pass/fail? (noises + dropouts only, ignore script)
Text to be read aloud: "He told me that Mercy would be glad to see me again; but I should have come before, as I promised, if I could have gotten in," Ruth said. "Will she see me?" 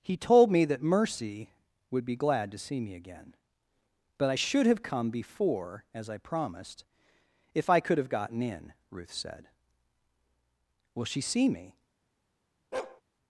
fail